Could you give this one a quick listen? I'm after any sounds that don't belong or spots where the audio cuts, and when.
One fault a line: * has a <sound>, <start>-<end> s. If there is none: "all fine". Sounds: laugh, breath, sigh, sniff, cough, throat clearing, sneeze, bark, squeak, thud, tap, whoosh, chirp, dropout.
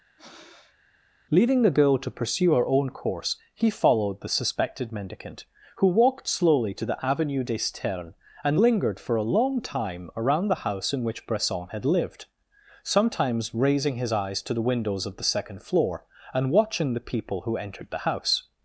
* has a breath, 0.2-0.8 s